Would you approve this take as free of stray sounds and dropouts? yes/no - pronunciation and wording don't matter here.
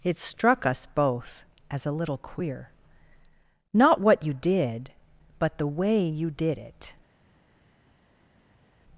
yes